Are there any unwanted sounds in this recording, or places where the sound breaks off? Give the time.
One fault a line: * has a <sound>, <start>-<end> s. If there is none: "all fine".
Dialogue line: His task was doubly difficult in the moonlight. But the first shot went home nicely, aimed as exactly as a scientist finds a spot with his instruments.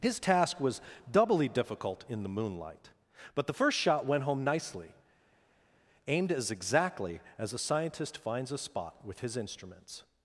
all fine